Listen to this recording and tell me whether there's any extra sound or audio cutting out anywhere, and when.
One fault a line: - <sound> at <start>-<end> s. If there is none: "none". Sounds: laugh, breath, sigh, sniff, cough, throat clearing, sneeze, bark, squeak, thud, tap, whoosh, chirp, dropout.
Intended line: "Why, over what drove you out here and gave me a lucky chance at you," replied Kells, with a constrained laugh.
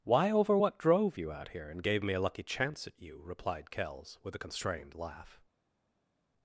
none